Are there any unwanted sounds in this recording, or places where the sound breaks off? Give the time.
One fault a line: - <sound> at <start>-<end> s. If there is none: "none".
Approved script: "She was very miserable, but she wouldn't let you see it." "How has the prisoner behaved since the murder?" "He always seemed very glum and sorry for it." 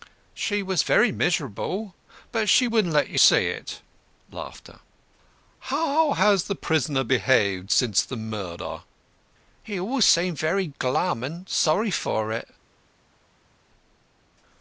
none